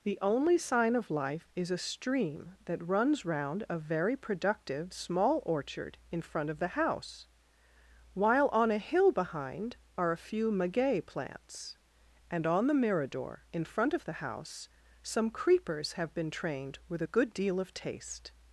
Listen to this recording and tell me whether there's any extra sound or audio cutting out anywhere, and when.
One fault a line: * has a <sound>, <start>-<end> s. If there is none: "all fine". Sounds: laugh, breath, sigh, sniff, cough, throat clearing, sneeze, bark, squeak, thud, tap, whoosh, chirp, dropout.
all fine